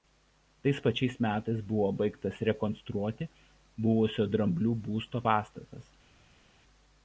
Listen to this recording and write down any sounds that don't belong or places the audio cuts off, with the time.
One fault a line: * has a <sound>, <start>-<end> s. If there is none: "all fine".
all fine